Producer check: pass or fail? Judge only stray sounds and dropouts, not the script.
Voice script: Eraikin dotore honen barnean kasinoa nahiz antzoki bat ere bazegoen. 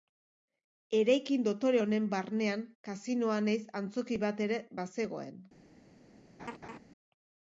fail